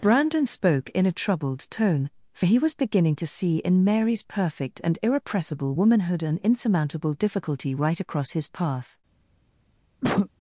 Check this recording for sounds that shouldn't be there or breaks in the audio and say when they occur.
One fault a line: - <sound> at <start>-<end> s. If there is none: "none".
- cough at 10.0-10.3 s